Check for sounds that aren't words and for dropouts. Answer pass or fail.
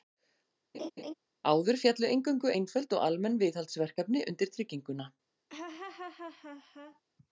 fail